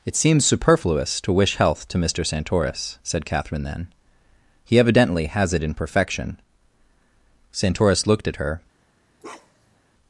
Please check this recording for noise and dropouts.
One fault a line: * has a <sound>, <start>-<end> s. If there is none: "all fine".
* has a bark, 9.2-9.8 s